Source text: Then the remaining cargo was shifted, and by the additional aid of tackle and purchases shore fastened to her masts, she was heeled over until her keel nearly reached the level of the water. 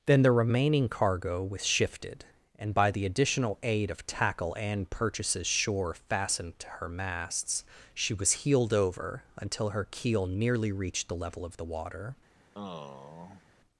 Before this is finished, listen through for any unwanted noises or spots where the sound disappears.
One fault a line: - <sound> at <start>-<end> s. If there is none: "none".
- sigh at 12.5-13.4 s